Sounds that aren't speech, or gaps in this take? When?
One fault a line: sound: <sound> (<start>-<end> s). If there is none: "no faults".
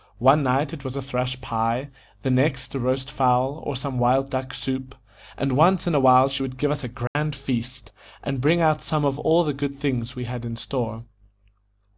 sound: dropout (7.1-7.2 s)